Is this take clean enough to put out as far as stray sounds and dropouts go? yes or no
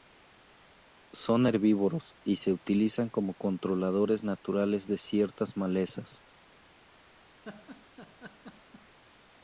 no